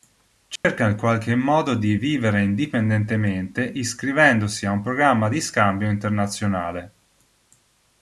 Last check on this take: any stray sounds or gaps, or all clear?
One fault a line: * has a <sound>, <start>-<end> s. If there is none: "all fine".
* has a dropout, 0.6-0.6 s